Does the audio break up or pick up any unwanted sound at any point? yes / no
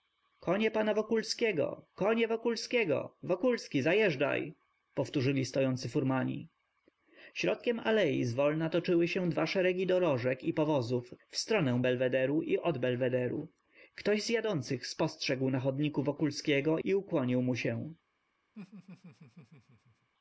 yes